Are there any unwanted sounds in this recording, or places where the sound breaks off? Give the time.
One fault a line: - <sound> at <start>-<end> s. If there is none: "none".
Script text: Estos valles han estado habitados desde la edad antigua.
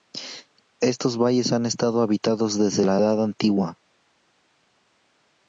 none